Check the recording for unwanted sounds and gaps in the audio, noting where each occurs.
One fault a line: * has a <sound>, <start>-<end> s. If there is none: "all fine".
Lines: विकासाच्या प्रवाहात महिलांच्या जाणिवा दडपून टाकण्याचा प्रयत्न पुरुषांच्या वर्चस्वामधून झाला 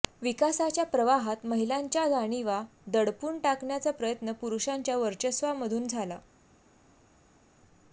all fine